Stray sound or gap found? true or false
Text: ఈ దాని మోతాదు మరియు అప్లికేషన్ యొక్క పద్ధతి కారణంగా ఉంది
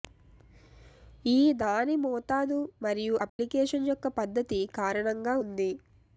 true